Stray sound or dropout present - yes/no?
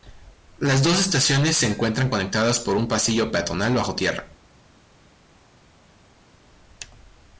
no